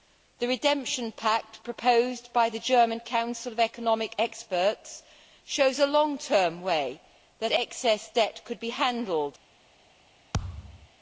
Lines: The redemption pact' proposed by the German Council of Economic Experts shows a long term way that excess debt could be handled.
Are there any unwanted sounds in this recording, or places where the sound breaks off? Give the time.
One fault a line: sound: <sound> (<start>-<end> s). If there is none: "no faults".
sound: thud (10.3-10.9 s)